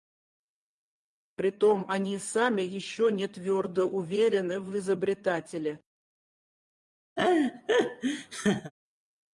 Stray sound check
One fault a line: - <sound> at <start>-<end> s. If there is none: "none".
- laugh at 7.2-8.7 s